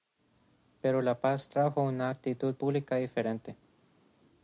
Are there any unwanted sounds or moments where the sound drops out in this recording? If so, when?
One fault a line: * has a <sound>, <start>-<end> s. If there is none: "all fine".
all fine